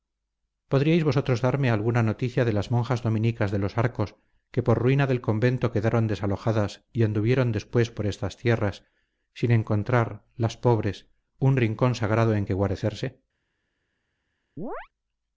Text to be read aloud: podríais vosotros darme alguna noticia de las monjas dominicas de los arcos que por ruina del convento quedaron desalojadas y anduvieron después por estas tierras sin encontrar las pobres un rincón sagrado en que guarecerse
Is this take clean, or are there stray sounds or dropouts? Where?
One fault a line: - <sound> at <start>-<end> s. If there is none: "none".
- chirp at 14.6-14.9 s